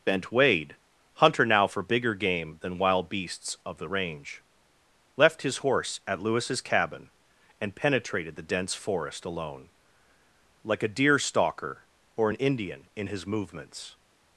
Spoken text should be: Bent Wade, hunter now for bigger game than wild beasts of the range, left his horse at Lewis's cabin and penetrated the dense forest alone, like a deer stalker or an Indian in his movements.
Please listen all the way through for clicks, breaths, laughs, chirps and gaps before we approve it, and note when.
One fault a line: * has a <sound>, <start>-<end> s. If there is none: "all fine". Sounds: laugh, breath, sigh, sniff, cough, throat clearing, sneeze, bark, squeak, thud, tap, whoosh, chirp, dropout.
all fine